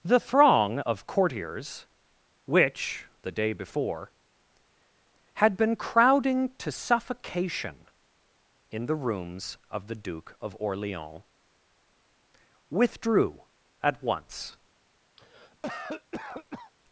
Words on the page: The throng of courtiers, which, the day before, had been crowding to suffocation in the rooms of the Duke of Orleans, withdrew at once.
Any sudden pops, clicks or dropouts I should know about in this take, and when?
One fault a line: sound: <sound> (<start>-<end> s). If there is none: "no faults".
sound: cough (15.2-16.7 s)